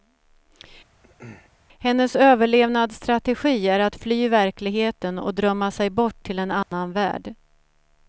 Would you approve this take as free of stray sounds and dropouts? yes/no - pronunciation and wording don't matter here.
no